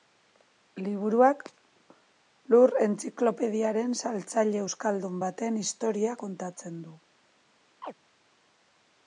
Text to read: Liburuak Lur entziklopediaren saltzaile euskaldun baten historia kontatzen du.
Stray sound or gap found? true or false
true